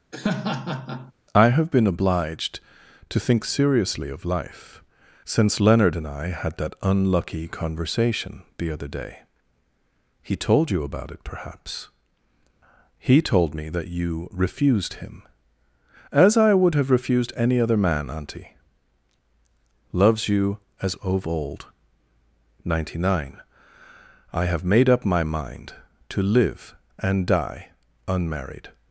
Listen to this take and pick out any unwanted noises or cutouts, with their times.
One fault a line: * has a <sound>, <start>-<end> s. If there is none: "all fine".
* has a laugh, 0.1-1.1 s